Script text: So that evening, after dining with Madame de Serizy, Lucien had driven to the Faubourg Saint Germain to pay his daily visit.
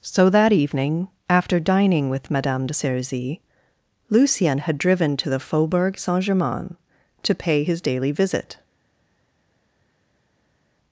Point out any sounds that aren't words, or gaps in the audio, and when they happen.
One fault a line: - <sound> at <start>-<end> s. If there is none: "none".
none